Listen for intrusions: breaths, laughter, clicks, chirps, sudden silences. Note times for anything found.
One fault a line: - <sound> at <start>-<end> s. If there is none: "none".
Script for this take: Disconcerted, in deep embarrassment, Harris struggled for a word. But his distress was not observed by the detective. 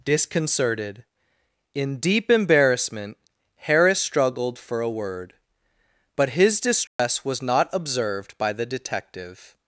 - dropout at 6.9-7.0 s